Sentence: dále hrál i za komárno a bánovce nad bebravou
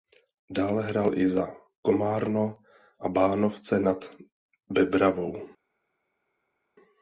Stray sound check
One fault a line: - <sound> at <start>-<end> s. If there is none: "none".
none